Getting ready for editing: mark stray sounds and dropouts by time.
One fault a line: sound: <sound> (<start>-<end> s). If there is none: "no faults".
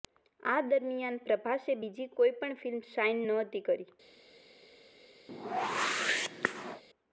sound: whoosh (5.3-6.8 s)